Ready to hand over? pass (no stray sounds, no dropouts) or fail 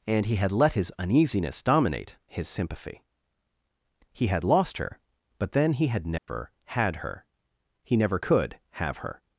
fail